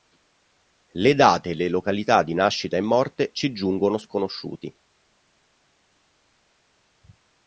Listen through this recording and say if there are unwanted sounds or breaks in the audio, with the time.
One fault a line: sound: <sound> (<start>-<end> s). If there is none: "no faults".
no faults